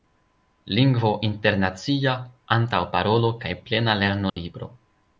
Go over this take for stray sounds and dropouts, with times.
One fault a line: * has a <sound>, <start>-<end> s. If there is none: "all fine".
* has a dropout, 4.3-4.4 s